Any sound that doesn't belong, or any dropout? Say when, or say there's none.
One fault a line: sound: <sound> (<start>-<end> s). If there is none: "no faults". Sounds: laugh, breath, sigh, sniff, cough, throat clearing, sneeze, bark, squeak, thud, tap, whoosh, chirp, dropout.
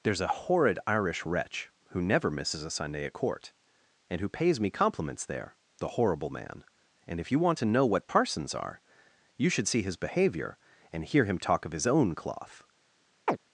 sound: chirp (13.3-13.4 s)